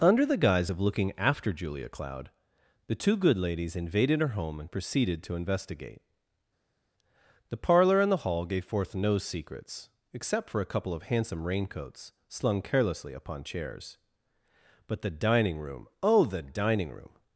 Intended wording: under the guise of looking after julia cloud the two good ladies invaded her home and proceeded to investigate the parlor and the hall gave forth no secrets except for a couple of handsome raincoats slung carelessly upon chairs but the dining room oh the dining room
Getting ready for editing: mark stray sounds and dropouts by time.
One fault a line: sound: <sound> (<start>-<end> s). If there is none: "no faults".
no faults